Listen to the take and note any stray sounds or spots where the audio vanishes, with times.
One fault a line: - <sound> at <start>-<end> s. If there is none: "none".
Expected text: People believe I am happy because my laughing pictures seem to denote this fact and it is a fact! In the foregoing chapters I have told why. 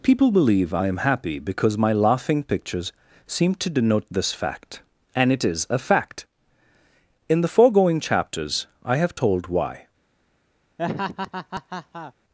- laugh at 10.8-12.1 s